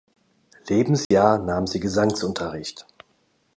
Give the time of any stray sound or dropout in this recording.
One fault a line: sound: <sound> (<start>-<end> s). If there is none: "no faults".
sound: dropout (1.0-1.1 s)